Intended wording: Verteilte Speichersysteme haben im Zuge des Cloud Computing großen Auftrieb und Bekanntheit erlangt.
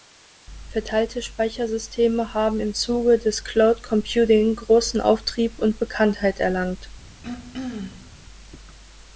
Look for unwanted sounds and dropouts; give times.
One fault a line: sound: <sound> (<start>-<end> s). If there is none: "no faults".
sound: throat clearing (7.2-8.1 s)